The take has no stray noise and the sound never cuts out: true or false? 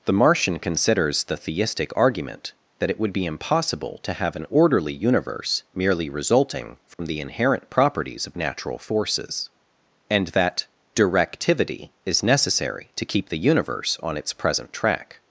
false